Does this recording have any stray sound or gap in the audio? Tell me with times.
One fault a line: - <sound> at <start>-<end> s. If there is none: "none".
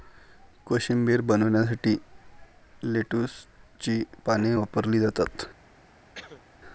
- cough at 6.2-6.4 s